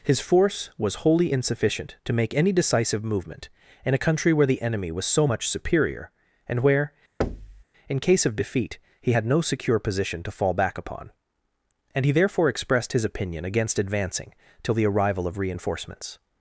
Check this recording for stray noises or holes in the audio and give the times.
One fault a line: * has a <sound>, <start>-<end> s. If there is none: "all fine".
* has a thud, 7.2-7.6 s